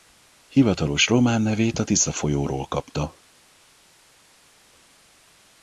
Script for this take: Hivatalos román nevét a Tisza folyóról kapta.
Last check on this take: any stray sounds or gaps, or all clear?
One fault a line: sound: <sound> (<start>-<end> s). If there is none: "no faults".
no faults